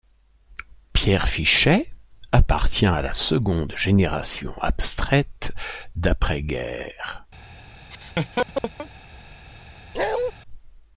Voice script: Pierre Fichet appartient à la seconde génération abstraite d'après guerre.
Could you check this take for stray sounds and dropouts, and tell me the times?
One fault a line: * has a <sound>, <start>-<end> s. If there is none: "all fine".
* has a laugh, 7.9-8.9 s
* has a bark, 9.9-10.3 s